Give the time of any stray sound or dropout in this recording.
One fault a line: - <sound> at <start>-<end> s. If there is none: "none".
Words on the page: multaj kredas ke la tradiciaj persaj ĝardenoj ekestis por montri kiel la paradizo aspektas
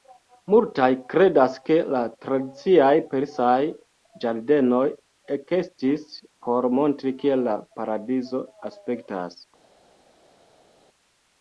none